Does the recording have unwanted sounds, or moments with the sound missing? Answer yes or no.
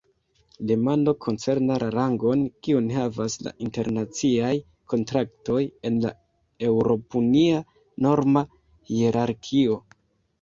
no